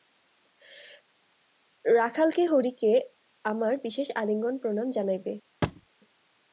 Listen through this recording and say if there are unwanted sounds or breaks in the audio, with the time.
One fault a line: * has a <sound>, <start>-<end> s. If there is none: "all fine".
* has a thud, 5.6-5.9 s